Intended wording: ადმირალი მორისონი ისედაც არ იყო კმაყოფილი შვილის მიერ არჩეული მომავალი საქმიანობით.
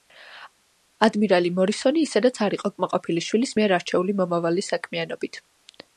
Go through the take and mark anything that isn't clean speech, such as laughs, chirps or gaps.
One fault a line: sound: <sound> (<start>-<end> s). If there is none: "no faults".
no faults